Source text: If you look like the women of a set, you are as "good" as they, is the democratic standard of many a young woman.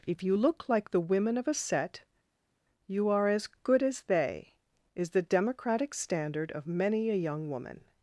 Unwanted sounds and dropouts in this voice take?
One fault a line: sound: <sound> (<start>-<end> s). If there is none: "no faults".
no faults